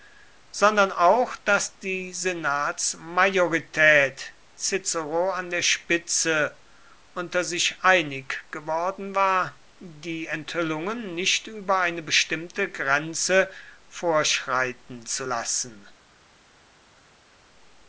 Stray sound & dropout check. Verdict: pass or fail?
pass